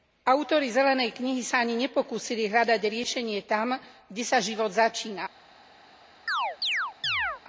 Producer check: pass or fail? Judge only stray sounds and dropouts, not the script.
fail